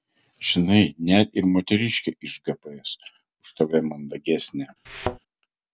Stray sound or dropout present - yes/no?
yes